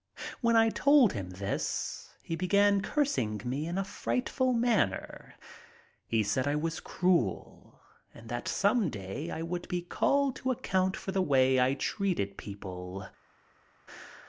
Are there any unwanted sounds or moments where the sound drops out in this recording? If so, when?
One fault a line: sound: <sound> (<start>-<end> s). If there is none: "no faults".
no faults